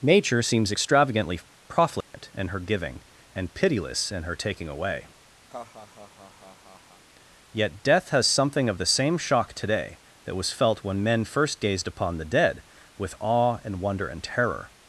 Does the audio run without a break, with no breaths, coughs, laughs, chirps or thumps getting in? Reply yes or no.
no